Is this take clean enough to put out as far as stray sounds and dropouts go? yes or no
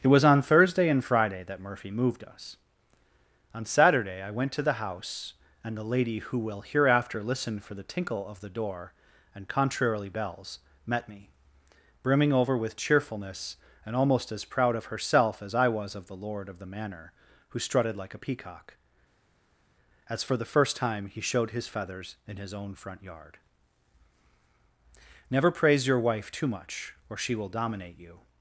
yes